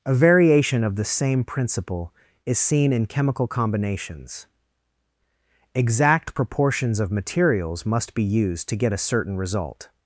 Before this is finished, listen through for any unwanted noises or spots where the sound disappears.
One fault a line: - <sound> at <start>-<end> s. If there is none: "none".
none